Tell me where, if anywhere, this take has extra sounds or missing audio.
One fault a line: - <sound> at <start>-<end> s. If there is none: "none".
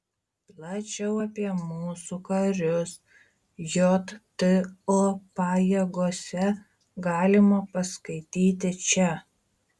none